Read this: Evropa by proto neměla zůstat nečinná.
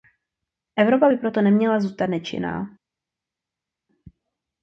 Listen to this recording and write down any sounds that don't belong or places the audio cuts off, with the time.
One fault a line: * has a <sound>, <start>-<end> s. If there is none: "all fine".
all fine